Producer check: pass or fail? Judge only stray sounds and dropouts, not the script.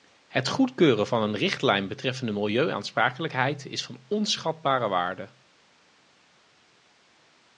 pass